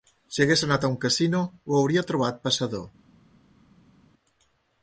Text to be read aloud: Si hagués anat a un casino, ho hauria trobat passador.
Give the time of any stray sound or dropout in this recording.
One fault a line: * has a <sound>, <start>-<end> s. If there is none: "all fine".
all fine